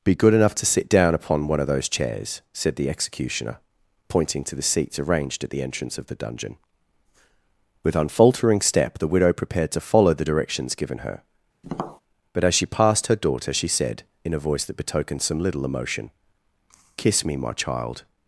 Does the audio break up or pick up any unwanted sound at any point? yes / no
yes